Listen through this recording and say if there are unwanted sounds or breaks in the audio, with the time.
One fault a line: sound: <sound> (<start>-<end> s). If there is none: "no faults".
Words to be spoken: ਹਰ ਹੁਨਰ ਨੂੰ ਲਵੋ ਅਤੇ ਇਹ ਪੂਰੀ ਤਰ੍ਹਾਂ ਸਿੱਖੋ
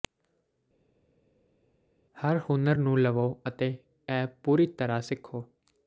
no faults